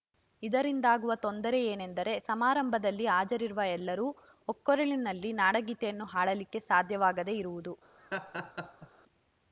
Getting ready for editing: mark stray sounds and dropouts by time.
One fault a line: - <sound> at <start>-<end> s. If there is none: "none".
- laugh at 8.0-8.9 s